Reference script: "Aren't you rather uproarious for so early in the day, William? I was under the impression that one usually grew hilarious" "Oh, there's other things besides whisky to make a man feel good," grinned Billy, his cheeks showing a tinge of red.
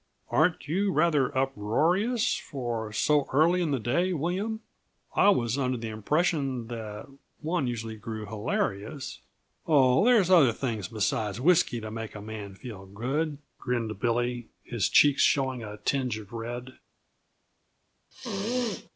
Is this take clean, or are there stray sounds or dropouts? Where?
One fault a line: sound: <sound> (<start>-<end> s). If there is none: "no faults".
sound: sneeze (18.1-18.9 s)